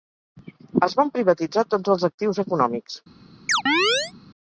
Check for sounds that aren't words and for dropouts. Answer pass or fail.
fail